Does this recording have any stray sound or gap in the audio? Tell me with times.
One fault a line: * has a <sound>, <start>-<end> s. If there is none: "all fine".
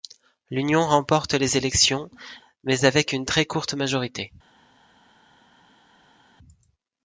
all fine